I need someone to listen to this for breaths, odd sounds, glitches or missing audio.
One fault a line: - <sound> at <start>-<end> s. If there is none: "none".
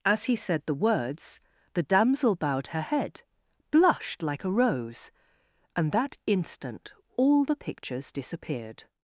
none